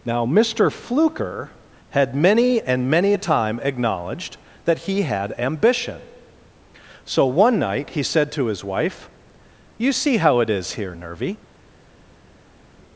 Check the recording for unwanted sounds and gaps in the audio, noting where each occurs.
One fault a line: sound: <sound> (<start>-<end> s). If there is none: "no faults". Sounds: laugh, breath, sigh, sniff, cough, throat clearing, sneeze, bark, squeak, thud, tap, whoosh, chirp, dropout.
no faults